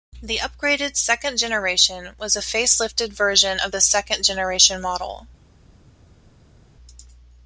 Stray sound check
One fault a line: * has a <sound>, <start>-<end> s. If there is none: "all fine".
all fine